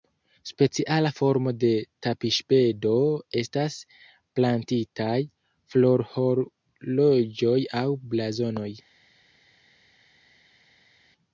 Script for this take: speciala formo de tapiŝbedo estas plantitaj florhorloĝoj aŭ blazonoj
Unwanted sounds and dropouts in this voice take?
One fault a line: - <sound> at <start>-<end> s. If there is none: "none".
none